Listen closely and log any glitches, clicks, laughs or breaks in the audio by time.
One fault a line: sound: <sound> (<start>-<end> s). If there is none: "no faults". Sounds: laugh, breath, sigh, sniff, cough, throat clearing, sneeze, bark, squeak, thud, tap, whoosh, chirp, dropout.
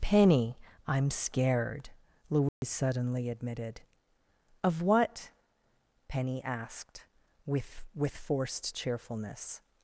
sound: dropout (2.5-2.6 s)